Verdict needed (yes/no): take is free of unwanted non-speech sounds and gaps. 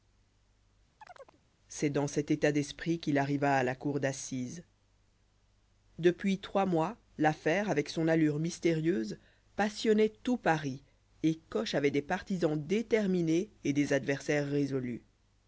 no